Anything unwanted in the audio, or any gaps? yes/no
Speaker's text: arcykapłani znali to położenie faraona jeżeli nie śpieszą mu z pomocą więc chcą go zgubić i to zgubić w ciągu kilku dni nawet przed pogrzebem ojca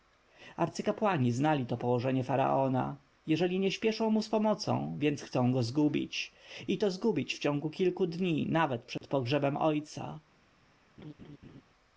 yes